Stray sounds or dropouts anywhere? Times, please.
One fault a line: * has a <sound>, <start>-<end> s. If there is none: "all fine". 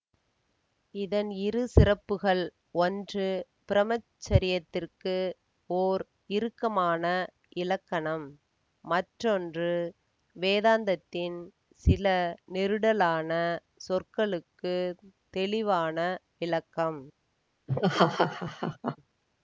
* has a laugh, 17.7-19.0 s